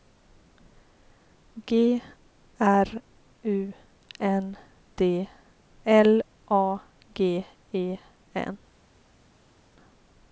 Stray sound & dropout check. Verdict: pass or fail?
pass